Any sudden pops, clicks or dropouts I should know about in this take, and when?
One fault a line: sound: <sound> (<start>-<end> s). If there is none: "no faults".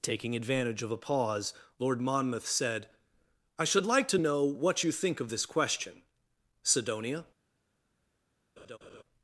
sound: laugh (8.6-9.0 s)